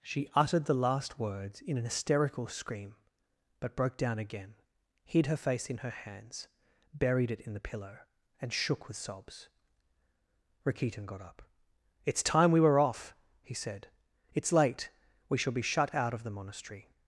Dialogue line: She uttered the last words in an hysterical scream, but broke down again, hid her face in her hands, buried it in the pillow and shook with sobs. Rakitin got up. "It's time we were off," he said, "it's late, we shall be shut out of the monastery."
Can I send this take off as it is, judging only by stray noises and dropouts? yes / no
yes